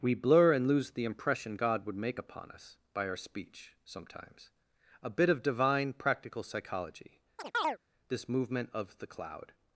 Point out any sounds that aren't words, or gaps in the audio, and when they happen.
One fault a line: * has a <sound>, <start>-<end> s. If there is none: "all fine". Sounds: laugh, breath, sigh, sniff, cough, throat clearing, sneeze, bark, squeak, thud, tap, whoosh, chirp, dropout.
* has a chirp, 7.4-7.8 s